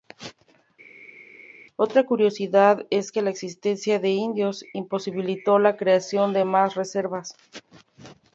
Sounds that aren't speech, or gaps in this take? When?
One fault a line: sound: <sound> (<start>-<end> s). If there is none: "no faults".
no faults